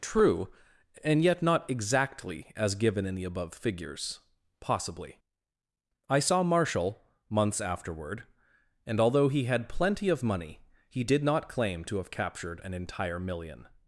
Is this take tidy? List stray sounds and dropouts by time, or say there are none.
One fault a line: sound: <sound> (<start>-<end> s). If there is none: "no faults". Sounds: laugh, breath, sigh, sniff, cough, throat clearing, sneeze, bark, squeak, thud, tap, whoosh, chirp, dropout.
no faults